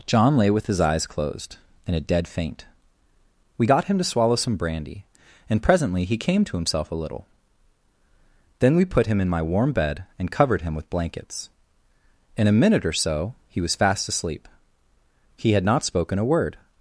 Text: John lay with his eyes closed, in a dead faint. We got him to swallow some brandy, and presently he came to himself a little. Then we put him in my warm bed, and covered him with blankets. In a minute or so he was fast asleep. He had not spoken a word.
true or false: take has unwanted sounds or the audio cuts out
false